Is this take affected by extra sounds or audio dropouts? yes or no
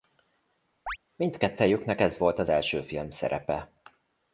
yes